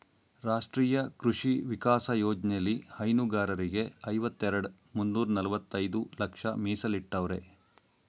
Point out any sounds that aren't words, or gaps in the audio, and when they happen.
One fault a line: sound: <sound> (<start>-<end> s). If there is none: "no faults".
no faults